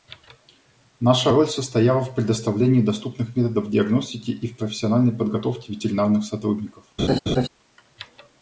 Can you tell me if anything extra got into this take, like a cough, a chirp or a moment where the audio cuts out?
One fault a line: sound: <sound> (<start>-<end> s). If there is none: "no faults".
sound: laugh (7.0-7.5 s)